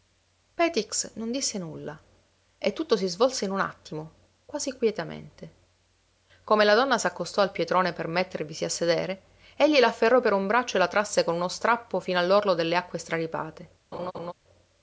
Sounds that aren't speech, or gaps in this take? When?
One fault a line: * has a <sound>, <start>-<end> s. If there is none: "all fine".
* has a laugh, 13.9-14.3 s